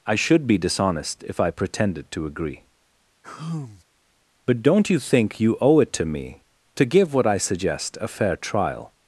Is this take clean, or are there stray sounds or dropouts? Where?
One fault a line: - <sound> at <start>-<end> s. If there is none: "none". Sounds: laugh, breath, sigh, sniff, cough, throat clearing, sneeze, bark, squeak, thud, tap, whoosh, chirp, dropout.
- sigh at 3.2-3.8 s